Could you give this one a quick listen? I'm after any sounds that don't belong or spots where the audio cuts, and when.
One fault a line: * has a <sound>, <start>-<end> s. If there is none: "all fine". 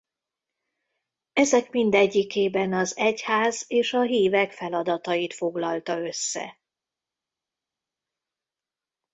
all fine